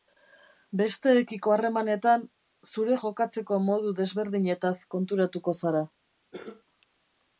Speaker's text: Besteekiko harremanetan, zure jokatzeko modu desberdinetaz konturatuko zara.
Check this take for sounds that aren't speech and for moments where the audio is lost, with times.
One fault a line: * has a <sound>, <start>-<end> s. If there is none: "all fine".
* has a cough, 6.3-6.6 s